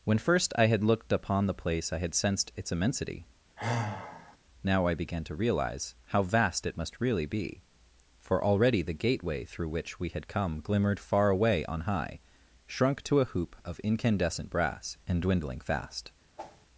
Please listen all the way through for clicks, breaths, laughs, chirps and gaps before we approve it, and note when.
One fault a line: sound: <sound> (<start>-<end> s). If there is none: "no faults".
sound: sigh (3.6-4.4 s)
sound: whoosh (16.4-16.7 s)